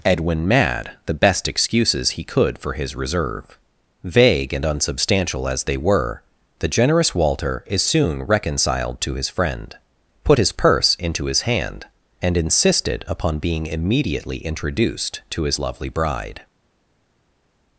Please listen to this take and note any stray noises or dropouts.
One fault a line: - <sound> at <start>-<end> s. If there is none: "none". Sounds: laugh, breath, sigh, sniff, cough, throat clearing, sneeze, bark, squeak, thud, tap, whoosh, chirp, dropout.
none